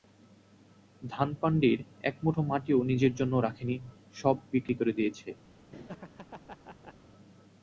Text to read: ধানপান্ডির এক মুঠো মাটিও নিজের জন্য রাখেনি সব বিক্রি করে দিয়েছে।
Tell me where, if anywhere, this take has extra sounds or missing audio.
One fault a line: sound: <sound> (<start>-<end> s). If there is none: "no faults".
sound: laugh (5.7-6.9 s)